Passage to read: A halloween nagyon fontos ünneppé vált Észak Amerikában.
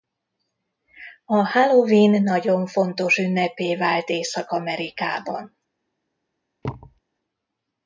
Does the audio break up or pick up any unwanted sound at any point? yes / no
yes